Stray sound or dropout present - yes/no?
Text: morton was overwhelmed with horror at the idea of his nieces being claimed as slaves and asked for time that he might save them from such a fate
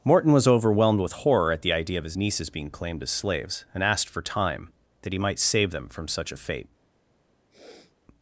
yes